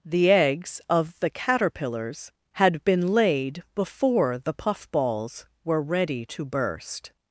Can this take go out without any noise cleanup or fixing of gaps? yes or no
yes